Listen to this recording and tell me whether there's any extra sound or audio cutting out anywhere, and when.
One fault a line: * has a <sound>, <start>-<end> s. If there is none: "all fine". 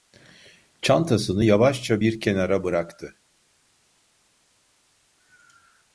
all fine